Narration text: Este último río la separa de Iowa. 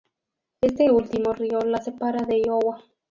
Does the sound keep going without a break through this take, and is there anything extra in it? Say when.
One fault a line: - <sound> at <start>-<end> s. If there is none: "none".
none